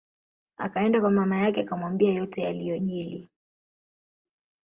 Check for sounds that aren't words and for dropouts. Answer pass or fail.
pass